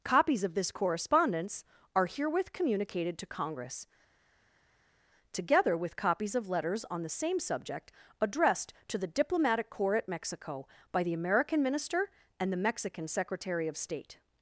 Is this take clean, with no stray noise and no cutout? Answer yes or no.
yes